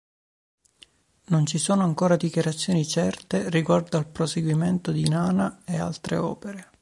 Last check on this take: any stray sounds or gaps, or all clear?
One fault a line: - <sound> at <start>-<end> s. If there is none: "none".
none